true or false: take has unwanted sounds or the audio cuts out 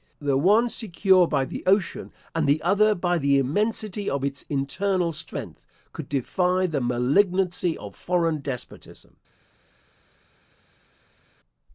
false